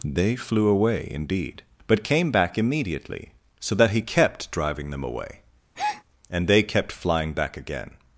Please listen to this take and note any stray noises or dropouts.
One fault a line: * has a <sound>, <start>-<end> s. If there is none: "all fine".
* has a breath, 5.7-6.0 s